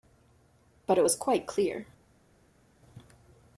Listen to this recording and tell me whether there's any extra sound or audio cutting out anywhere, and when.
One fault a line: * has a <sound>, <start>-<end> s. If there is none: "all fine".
all fine